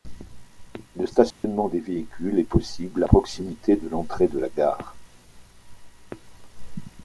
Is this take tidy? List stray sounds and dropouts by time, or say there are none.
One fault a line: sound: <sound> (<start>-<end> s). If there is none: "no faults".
sound: dropout (1.3-1.4 s)